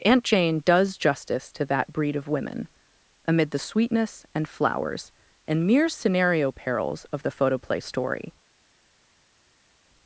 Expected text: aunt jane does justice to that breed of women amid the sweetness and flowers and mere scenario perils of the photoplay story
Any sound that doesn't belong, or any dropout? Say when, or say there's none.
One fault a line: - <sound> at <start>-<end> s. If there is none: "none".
none